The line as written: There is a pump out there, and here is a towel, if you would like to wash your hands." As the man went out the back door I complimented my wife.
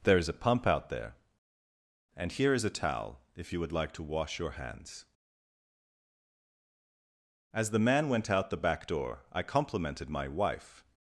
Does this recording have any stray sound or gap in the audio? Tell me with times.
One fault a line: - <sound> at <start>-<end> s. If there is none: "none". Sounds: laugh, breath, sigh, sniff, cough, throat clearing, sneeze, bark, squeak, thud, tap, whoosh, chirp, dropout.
none